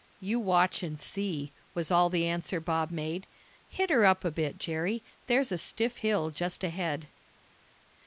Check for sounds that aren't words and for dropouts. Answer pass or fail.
pass